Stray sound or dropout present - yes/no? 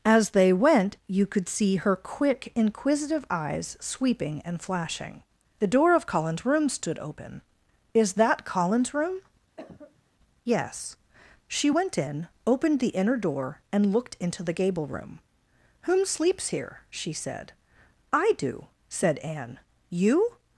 yes